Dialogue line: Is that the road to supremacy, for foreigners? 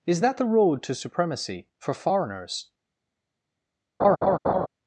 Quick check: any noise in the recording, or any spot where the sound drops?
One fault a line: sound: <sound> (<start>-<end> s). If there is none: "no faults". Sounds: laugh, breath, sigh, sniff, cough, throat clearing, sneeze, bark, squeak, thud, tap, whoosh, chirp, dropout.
sound: laugh (4.0-4.7 s)